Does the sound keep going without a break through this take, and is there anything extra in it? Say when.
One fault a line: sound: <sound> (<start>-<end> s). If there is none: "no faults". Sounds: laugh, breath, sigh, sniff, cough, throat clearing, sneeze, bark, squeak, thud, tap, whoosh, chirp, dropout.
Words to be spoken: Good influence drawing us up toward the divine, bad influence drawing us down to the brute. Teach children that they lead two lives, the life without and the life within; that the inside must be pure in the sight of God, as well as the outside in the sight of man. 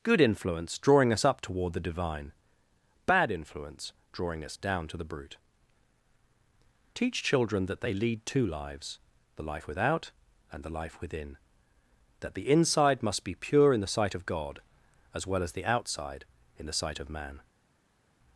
no faults